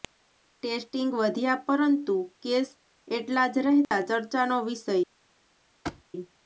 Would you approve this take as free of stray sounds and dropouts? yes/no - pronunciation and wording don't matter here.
no